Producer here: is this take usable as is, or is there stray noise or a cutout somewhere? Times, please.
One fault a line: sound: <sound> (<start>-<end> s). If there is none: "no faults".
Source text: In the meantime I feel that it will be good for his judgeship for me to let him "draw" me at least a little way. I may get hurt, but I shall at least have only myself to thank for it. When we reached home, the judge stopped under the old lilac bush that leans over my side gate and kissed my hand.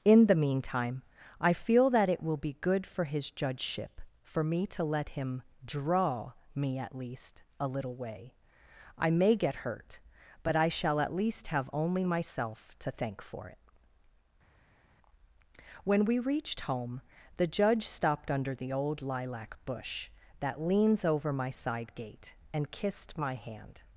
no faults